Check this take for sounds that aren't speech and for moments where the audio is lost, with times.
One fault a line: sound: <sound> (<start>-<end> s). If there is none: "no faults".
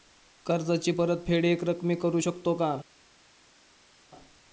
no faults